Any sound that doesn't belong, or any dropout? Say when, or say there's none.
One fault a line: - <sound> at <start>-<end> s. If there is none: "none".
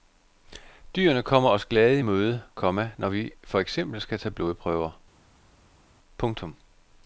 none